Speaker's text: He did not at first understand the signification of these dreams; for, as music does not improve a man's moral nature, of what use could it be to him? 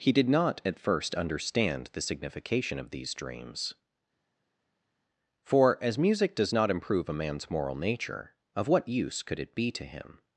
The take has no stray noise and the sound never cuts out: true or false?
true